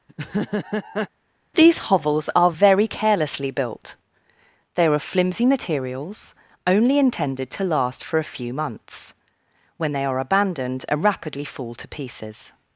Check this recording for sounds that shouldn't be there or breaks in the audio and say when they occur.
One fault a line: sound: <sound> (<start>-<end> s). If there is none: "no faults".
sound: laugh (0.1-1.1 s)